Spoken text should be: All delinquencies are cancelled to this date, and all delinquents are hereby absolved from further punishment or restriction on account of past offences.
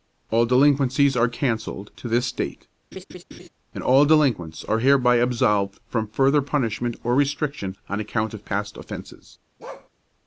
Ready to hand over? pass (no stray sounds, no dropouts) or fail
fail